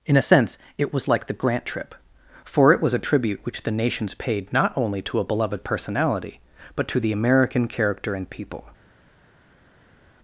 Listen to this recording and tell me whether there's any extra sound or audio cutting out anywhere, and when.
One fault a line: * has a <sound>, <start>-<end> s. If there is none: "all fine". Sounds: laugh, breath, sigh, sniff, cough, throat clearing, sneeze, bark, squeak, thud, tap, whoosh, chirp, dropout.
all fine